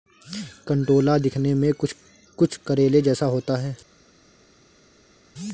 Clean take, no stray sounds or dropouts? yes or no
yes